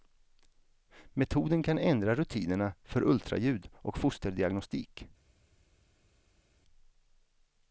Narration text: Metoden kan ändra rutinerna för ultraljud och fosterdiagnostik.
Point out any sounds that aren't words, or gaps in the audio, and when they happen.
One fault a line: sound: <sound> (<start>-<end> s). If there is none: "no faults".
no faults